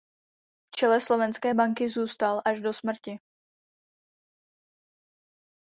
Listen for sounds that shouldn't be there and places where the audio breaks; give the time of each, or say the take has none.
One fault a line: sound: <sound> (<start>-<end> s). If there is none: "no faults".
no faults